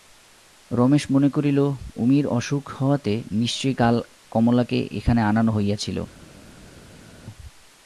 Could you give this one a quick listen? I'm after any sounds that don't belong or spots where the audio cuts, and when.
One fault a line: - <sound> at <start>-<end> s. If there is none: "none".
none